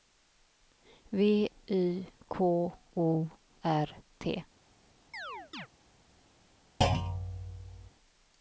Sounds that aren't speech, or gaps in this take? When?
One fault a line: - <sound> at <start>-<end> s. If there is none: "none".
- chirp at 5.1-5.7 s
- thud at 6.8-7.9 s